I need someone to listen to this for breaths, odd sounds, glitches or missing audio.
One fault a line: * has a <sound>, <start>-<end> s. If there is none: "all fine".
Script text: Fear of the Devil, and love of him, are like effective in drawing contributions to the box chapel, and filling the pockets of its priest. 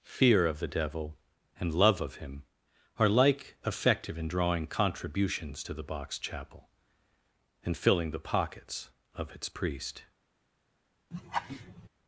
* has a laugh, 11.1-11.9 s